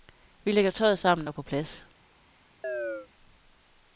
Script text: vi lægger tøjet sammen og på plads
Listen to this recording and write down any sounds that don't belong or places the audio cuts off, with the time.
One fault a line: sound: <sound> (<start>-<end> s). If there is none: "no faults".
sound: chirp (2.6-3.1 s)